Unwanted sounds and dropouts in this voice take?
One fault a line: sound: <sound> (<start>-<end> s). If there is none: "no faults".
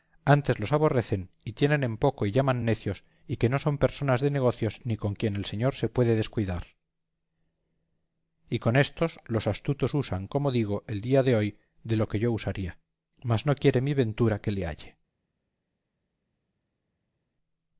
no faults